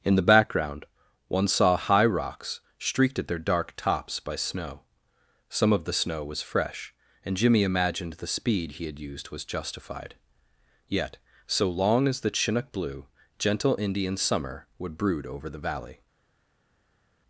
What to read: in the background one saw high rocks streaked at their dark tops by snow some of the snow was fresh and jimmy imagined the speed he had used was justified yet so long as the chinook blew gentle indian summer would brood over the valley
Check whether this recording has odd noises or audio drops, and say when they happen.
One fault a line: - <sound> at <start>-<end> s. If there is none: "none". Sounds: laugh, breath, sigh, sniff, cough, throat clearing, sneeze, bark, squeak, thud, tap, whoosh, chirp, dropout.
none